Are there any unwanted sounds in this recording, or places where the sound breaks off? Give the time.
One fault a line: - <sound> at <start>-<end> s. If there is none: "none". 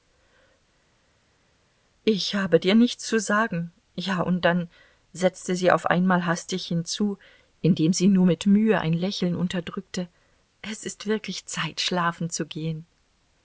none